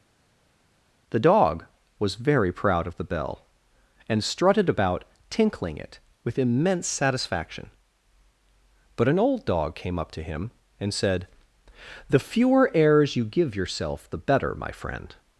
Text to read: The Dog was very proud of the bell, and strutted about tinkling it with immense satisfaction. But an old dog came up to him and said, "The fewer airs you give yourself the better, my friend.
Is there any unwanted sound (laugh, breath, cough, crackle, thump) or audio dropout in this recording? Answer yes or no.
no